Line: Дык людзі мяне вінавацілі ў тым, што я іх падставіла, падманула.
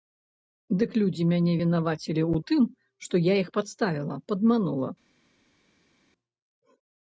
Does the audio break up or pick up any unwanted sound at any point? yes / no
no